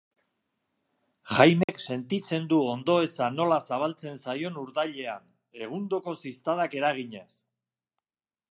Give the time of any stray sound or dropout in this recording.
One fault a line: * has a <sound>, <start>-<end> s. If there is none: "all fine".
* has a dropout, 1.6-1.7 s